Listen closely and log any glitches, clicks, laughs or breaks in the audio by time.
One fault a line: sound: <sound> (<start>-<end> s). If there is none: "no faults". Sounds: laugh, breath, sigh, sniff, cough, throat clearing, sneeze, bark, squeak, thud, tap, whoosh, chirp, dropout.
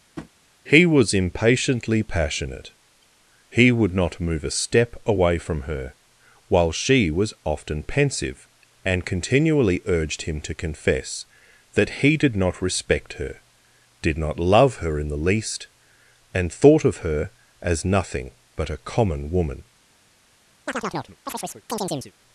sound: tap (0.2-0.3 s)
sound: chirp (20.7-22.1 s)